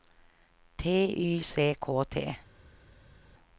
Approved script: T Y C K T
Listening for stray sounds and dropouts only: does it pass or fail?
pass